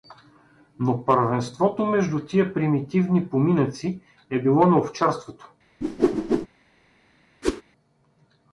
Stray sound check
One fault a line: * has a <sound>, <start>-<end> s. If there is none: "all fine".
* has a whoosh, 5.8-6.5 s
* has a whoosh, 7.4-7.6 s